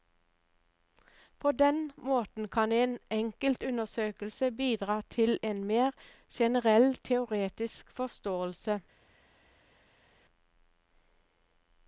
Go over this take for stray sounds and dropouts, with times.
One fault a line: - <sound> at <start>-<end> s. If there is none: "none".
none